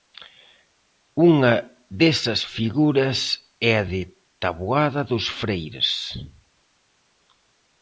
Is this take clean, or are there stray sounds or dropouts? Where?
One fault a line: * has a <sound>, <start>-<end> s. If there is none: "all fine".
all fine